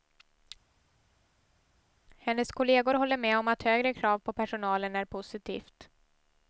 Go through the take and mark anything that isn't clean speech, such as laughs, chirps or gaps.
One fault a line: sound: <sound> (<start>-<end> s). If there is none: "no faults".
no faults